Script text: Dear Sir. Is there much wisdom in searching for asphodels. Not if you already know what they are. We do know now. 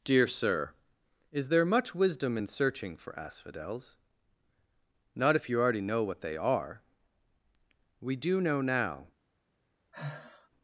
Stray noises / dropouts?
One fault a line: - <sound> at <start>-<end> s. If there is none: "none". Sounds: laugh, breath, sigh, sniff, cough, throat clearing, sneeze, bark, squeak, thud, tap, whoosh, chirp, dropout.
- sigh at 9.9-10.5 s